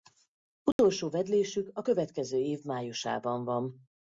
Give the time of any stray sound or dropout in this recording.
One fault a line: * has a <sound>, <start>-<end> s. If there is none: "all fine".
* has a dropout, 0.7-0.8 s